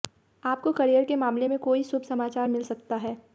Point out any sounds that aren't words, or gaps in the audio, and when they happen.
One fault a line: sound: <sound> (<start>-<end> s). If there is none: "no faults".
no faults